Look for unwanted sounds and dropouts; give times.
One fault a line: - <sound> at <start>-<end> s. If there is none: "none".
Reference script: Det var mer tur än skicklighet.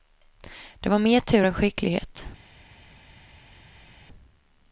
none